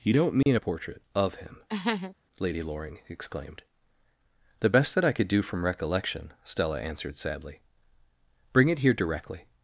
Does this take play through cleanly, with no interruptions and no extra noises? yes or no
no